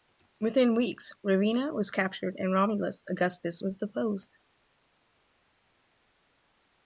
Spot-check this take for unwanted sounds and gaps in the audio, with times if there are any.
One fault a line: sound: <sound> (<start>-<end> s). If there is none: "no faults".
no faults